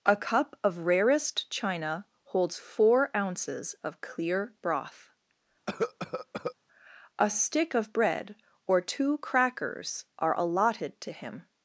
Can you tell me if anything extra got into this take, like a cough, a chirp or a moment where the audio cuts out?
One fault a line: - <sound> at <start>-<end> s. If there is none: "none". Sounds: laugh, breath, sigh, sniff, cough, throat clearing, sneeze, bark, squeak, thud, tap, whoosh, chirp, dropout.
- cough at 5.7-6.5 s